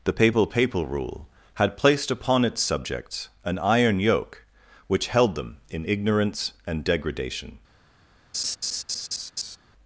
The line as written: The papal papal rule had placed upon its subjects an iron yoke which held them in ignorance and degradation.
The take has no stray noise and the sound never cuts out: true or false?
false